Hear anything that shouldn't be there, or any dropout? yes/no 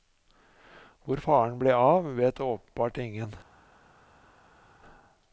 no